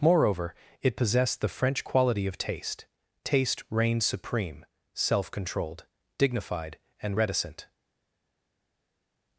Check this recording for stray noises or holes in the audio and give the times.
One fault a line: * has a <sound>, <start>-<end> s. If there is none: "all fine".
all fine